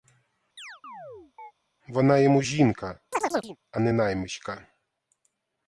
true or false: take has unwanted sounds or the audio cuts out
true